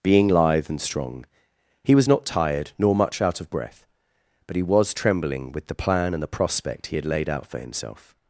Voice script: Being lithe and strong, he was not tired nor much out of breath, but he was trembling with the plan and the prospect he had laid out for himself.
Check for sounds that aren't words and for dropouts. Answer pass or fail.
pass